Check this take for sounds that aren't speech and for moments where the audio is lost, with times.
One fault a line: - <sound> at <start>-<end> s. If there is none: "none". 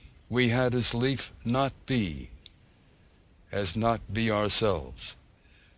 none